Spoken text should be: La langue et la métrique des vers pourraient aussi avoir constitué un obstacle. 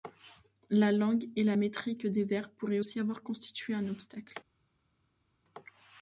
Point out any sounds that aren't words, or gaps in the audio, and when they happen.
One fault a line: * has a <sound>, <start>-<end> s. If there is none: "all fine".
all fine